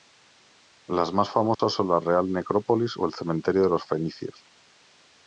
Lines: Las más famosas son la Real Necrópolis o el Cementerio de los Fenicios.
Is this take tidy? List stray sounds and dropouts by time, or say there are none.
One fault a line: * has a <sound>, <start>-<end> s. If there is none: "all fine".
* has a dropout, 1.5-1.6 s